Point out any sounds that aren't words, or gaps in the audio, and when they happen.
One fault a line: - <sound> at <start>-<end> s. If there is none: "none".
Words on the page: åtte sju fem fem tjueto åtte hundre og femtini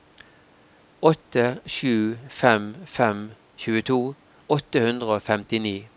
none